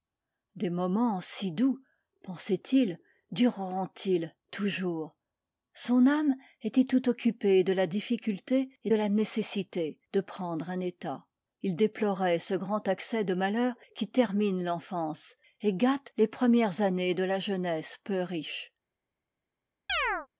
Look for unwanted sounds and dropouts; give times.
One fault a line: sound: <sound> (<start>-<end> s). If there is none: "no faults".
sound: chirp (19.9-20.3 s)